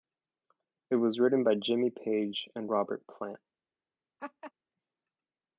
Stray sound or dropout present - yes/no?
yes